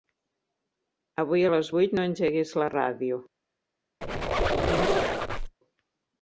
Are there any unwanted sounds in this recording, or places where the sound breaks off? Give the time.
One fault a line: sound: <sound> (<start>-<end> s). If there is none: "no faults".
sound: squeak (4.0-5.5 s)